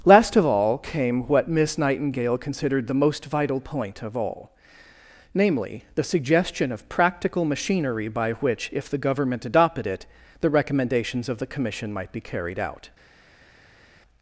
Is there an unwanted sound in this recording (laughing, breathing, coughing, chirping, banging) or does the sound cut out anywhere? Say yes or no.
no